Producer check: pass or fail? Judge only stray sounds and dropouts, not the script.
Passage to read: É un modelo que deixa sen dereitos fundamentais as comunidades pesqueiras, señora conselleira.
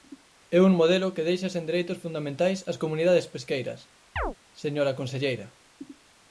fail